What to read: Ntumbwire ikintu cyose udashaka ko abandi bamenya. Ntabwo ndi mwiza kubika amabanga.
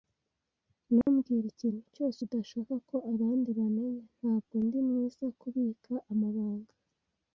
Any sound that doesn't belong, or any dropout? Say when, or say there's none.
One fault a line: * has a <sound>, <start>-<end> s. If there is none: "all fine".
* has a dropout, 1.0-1.1 s